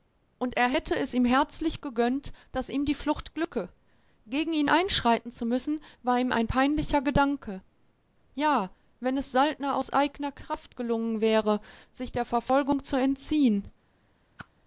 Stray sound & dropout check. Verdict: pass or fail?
fail